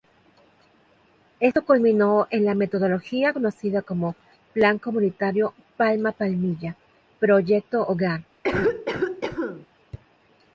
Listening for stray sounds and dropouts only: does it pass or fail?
fail